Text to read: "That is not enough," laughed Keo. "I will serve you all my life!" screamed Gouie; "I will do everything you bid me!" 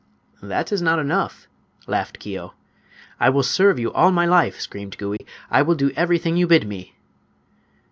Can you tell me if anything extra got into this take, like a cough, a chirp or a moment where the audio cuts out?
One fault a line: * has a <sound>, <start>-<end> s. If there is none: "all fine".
* has a dropout, 5.2-5.2 s